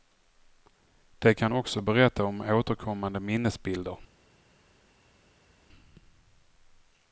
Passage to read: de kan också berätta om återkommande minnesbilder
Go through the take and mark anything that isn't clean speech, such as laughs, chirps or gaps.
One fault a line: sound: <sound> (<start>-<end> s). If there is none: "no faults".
no faults